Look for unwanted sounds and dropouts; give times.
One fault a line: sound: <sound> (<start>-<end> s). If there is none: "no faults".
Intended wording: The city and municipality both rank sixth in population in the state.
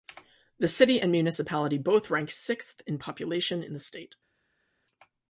no faults